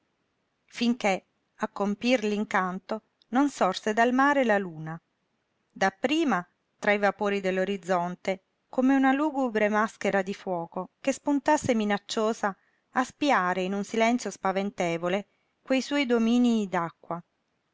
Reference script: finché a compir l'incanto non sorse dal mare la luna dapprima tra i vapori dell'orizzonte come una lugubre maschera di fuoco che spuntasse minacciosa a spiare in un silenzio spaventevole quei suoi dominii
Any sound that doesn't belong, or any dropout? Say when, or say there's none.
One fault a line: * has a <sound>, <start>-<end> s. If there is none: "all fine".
all fine